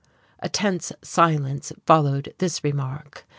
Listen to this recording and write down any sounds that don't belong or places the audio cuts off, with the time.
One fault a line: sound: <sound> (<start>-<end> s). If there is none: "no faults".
no faults